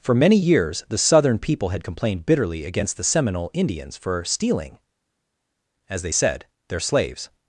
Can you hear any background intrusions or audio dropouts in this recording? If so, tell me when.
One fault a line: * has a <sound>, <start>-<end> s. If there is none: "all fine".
all fine